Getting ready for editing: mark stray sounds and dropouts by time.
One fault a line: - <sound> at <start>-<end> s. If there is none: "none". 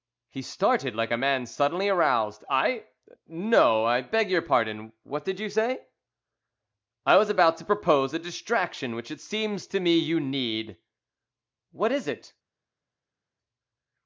none